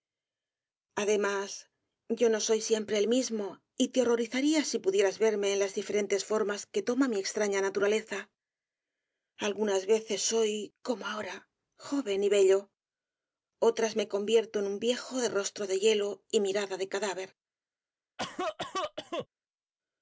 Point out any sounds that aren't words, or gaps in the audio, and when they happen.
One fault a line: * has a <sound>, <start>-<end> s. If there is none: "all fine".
* has a cough, 18.2-19.3 s